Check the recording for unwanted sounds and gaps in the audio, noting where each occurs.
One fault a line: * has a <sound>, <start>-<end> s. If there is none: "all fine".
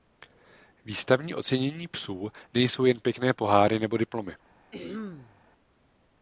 * has a throat clearing, 4.7-5.4 s